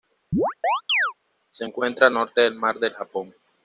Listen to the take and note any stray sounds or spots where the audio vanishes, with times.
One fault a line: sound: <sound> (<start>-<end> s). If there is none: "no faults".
sound: chirp (0.3-1.1 s)